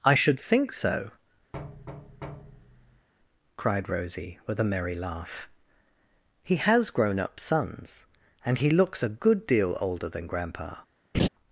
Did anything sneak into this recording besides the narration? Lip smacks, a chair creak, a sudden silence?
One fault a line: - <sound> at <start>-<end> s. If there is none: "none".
- thud at 1.5-3.1 s
- laugh at 11.1-11.3 s